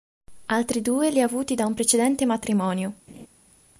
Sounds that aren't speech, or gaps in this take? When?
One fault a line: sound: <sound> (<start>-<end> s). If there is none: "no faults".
sound: laugh (3.1-3.3 s)